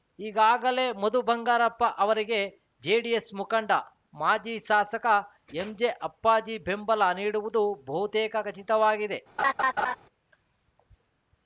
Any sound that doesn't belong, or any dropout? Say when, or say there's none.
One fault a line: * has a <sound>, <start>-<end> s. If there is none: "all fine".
* has a laugh, 9.4-10.0 s